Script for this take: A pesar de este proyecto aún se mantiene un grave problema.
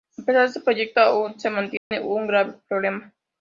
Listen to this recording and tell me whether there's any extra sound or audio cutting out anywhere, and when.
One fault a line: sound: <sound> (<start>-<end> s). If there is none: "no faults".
sound: dropout (1.8-1.9 s)